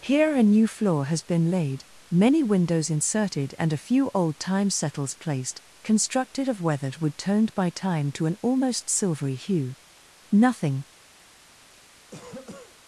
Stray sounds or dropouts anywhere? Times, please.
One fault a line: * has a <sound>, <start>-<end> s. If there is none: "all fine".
* has a cough, 12.1-12.8 s